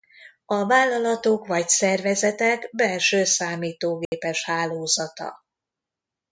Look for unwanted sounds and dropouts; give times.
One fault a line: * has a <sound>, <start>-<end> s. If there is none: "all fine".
* has a dropout, 4.0-4.1 s